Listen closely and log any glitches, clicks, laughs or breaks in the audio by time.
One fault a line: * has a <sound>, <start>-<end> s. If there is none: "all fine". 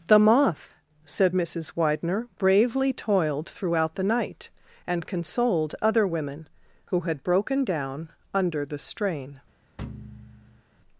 * has a thud, 9.8-10.6 s